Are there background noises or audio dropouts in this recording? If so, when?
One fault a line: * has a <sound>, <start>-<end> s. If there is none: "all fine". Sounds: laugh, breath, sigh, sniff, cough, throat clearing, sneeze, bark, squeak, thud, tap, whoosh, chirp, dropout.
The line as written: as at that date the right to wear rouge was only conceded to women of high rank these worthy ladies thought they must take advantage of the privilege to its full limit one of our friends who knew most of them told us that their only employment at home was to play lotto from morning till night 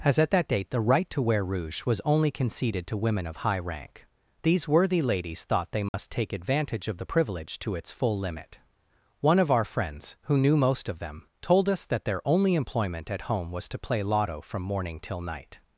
* has a dropout, 5.9-5.9 s